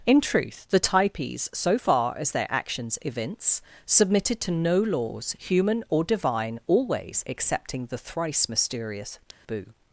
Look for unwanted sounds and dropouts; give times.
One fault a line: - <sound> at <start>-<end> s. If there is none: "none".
- dropout at 9.3-9.5 s